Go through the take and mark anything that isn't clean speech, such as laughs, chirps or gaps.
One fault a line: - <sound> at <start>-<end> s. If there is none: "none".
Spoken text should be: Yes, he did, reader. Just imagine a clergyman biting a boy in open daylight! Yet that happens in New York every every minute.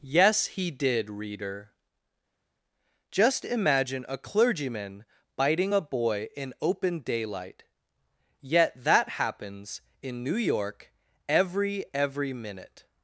none